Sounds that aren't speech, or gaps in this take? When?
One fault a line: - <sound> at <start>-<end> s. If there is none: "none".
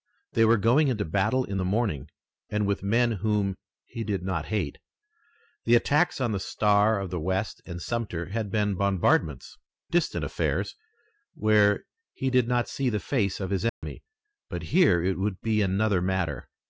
- dropout at 13.7-13.8 s